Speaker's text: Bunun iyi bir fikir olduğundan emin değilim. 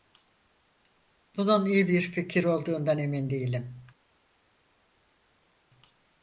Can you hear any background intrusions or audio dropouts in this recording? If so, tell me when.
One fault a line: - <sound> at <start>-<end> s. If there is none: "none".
none